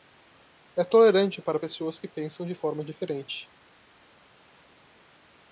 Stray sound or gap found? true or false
false